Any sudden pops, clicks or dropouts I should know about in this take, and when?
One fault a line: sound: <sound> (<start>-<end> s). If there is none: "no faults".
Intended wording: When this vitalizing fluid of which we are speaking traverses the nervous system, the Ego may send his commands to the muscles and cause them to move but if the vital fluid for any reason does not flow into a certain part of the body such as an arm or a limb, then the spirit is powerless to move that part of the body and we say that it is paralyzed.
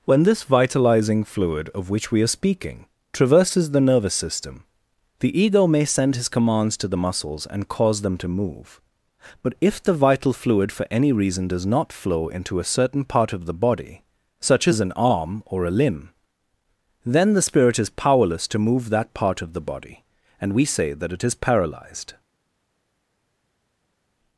no faults